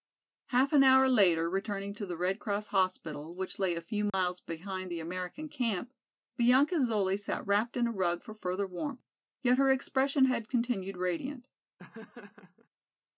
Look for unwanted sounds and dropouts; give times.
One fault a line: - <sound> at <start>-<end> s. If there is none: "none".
- dropout at 4.1-4.1 s
- laugh at 11.8-12.7 s